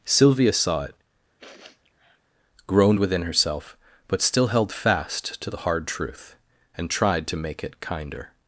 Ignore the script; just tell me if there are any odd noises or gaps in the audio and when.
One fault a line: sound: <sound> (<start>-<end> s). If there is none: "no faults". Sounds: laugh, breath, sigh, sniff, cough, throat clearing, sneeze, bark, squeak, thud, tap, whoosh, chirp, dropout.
sound: sniff (1.4-2.2 s)